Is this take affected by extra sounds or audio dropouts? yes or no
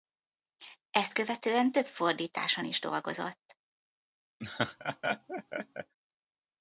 yes